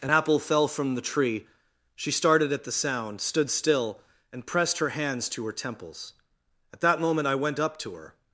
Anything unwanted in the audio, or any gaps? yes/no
no